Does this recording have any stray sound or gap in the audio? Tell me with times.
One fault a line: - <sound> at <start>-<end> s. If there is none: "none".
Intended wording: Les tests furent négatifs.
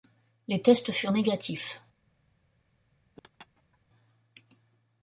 - laugh at 3.2-3.8 s